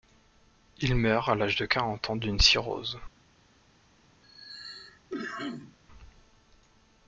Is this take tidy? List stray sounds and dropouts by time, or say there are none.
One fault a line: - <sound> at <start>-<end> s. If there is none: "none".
- cough at 4.2-5.8 s